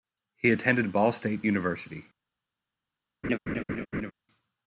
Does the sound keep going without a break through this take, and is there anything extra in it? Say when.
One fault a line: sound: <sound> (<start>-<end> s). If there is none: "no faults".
sound: laugh (3.2-4.1 s)